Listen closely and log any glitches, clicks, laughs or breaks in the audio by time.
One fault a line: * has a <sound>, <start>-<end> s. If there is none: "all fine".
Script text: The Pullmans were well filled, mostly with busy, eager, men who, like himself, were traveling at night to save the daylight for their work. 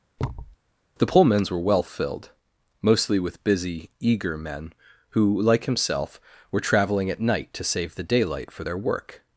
* has a thud, 0.2-0.6 s